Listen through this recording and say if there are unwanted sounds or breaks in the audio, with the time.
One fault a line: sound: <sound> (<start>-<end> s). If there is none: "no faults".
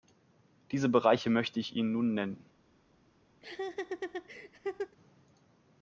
sound: laugh (3.4-5.0 s)